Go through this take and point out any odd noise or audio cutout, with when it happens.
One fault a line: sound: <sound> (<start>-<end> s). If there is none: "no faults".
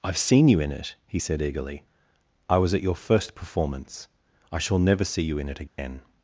sound: dropout (5.7-5.8 s)